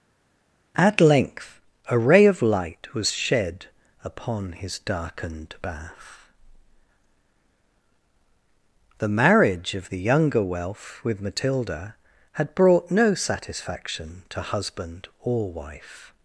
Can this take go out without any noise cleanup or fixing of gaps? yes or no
yes